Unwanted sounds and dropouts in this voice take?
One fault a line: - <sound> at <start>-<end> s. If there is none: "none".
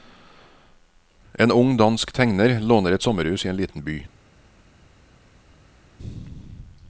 none